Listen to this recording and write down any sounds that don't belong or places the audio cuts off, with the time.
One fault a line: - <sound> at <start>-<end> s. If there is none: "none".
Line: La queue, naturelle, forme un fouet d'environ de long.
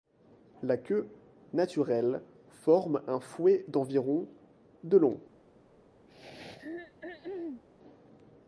- throat clearing at 6.1-7.6 s